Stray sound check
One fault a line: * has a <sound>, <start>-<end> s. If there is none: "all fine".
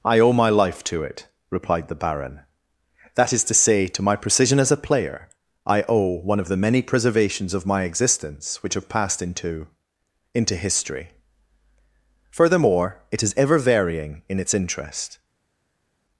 all fine